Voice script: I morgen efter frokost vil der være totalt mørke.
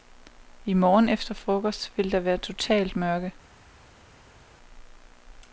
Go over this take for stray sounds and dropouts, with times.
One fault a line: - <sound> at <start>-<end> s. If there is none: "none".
none